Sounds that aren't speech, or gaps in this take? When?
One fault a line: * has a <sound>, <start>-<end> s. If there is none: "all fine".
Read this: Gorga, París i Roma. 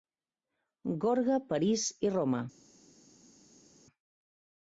all fine